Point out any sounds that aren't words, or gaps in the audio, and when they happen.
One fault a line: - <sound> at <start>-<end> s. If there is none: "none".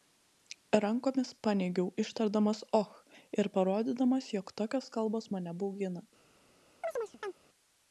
- chirp at 6.8-7.3 s